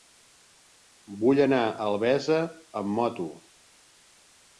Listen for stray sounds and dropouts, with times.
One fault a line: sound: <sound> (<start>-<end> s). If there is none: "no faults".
no faults